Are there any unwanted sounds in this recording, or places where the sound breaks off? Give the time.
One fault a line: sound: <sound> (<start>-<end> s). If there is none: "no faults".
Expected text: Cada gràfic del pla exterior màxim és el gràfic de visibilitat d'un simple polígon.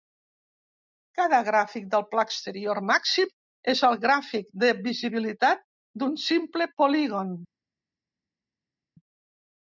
no faults